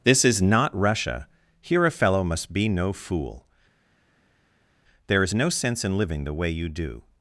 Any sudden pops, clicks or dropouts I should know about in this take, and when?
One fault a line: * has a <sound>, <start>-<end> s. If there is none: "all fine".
all fine